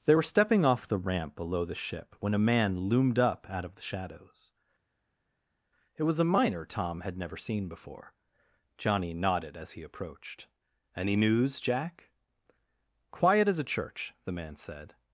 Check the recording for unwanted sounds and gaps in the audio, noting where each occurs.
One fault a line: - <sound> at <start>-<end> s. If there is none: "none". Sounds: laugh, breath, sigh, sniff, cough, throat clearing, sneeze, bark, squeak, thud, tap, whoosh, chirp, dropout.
none